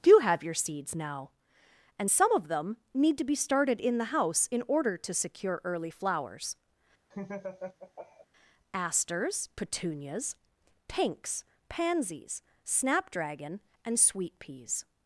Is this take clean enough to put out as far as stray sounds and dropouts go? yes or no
no